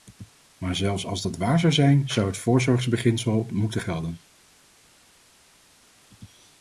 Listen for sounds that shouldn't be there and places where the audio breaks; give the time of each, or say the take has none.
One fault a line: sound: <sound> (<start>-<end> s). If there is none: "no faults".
no faults